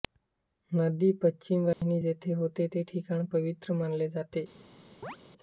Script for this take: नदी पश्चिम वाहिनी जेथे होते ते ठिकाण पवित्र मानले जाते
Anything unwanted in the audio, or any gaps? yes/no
yes